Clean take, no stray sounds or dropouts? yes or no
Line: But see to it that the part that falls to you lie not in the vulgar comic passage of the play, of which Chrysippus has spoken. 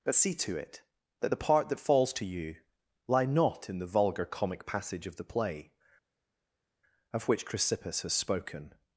yes